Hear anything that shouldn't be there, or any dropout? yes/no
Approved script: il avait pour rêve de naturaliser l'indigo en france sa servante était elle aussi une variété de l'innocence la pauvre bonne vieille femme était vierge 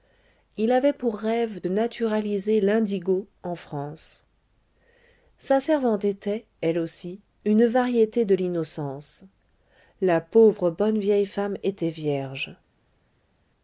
no